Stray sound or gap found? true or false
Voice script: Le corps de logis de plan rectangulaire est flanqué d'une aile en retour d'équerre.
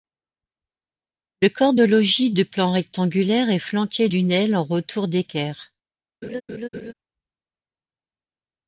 true